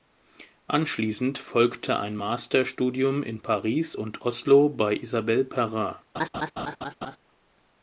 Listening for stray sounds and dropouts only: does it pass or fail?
fail